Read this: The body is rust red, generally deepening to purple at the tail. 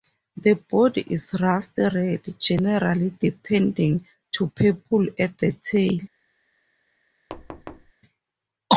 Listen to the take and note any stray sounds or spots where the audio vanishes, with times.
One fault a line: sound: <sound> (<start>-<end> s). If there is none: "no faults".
sound: thud (7.3-7.9 s)